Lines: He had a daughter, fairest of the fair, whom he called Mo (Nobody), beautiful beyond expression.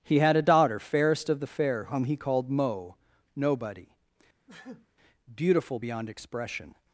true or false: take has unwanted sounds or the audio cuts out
true